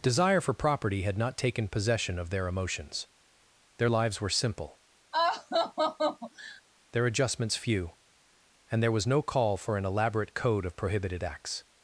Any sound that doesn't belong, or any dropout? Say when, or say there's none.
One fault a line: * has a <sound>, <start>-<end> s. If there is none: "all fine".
* has a laugh, 5.1-6.6 s